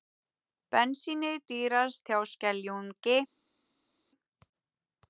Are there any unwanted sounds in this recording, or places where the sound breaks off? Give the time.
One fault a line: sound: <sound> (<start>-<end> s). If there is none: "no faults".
no faults